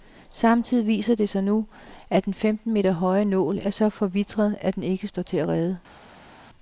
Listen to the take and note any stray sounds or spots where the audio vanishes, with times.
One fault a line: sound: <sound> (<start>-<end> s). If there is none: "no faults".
no faults